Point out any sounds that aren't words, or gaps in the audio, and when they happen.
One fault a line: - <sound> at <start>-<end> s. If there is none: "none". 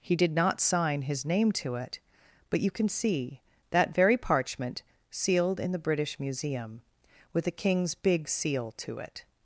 none